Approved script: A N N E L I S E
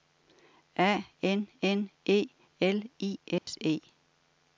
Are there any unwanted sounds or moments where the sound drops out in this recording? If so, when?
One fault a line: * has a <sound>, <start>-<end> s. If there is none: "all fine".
* has a dropout, 3.4-3.5 s